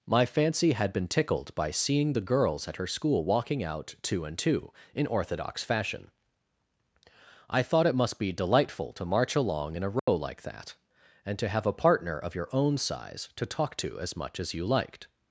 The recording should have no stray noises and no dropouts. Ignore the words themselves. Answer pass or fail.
fail